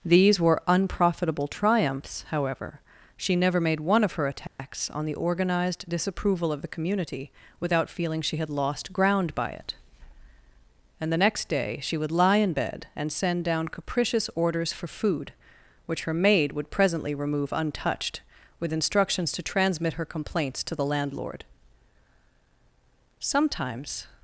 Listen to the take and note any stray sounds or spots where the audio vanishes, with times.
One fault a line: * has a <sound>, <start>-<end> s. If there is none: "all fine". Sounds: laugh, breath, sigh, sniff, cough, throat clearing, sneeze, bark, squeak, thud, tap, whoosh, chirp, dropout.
* has a dropout, 4.5-4.6 s